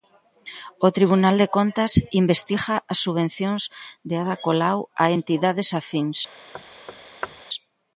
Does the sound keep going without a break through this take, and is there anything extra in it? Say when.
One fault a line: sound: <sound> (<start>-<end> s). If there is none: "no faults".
sound: thud (6.5-7.4 s)